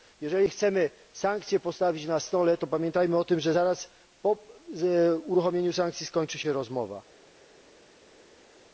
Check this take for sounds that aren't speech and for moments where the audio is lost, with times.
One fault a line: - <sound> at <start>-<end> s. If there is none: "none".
none